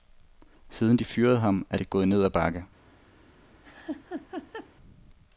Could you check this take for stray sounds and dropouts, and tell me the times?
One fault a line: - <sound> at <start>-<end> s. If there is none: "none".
- laugh at 3.6-4.7 s